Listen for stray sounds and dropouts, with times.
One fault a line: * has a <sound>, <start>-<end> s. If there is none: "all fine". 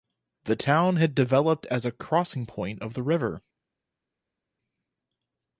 all fine